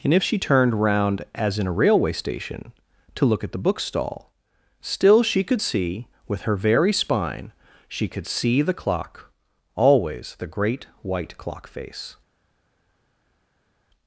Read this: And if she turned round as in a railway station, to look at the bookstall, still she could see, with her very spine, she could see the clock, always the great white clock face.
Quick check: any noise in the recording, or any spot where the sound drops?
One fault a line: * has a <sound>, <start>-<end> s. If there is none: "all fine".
all fine